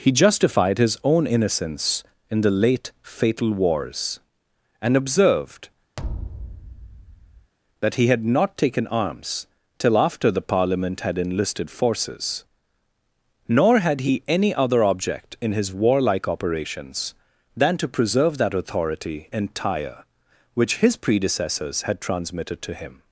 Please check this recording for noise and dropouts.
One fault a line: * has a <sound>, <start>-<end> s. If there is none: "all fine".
* has a thud, 6.0-7.5 s